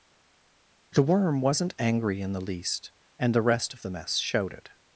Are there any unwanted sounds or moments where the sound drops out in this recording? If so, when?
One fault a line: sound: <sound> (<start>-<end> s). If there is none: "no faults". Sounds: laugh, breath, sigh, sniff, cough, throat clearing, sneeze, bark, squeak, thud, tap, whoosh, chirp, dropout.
no faults